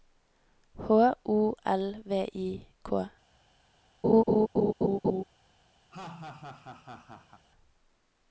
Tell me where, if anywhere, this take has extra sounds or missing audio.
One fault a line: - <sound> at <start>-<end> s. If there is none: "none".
- laugh at 4.0-5.2 s
- laugh at 5.9-7.4 s